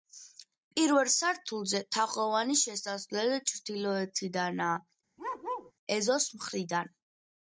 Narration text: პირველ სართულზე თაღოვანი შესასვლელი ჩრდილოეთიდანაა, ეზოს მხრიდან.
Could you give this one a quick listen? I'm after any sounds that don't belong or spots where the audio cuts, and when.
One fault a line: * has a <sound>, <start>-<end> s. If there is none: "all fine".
* has a bark, 5.2-5.7 s